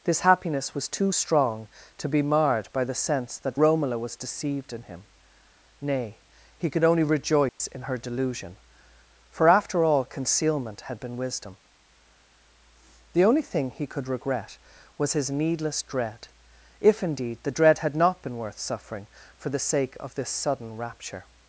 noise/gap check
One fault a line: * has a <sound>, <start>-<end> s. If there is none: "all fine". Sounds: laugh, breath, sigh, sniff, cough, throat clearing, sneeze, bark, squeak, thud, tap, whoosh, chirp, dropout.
* has a dropout, 7.5-7.6 s